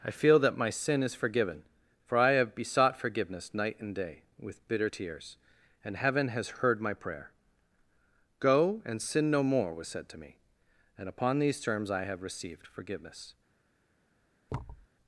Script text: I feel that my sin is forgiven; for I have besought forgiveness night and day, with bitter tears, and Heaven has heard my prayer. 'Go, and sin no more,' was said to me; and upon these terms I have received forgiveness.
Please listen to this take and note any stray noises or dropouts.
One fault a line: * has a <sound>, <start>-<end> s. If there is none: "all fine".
* has a thud, 14.5-14.9 s